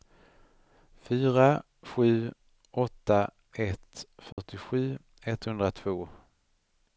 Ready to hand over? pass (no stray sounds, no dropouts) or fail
fail